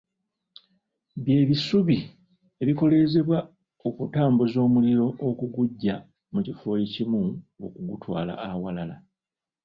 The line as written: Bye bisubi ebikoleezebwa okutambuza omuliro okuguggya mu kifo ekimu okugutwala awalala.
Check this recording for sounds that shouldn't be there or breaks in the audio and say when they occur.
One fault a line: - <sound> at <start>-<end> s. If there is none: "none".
none